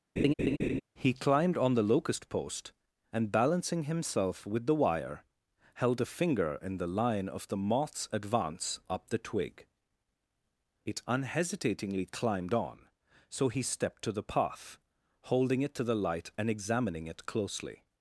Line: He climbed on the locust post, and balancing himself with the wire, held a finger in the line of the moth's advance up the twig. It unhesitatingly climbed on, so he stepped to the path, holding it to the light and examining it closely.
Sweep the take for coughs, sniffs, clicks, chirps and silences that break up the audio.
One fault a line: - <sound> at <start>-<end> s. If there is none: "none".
- laugh at 0.2-0.8 s